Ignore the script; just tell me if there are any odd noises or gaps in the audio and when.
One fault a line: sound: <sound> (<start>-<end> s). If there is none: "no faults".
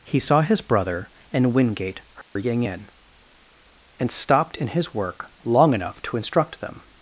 sound: dropout (2.2-2.4 s)